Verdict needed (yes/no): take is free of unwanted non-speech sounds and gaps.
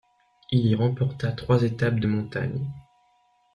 yes